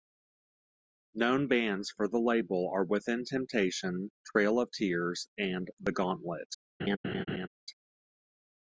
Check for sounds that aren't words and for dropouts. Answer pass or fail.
fail